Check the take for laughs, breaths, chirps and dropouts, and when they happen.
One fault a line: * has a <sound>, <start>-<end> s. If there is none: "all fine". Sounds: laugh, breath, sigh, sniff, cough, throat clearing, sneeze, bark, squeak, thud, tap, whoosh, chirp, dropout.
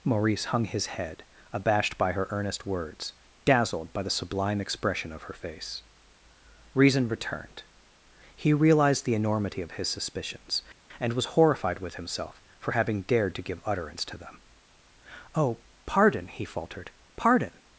all fine